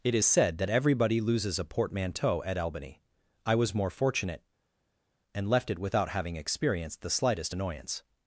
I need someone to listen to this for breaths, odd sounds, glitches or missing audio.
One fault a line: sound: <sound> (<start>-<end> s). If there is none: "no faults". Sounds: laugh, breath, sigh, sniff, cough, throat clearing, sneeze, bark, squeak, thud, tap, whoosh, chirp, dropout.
no faults